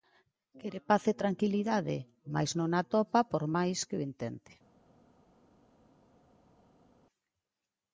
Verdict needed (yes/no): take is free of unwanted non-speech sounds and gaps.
yes